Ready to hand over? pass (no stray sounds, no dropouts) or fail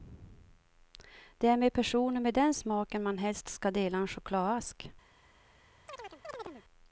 fail